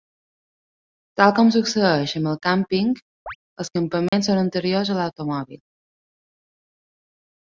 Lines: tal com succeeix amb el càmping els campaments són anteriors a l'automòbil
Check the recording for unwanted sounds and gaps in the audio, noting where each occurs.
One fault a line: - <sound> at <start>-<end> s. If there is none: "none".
- chirp at 3.3-3.4 s
- dropout at 4.1-4.1 s